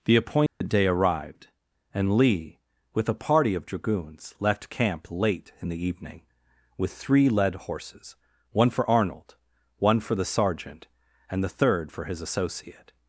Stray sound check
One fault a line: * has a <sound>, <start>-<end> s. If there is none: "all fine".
* has a dropout, 0.5-0.6 s